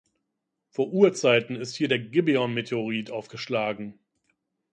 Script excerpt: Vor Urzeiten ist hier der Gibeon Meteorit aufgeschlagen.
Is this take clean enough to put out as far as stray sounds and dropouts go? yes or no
yes